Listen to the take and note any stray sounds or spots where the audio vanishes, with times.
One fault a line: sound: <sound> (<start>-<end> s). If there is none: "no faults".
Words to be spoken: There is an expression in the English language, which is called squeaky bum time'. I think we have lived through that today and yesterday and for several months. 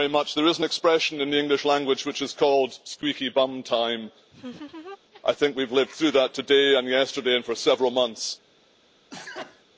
sound: laugh (4.3-5.0 s)
sound: sneeze (9.1-9.6 s)